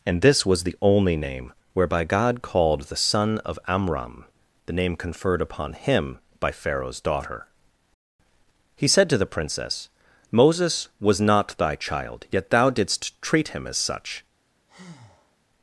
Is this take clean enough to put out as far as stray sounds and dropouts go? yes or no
no